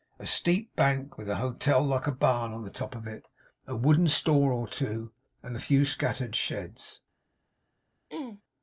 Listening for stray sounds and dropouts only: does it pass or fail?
fail